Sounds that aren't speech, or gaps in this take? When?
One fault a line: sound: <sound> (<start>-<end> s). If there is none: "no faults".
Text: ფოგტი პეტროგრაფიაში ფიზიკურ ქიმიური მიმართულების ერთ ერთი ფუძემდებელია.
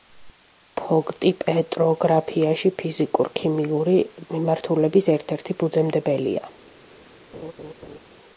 sound: laugh (7.3-8.0 s)